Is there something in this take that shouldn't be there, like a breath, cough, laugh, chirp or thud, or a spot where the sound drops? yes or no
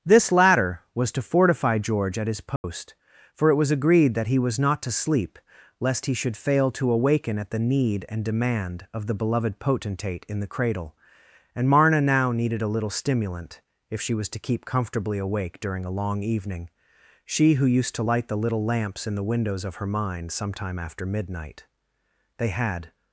yes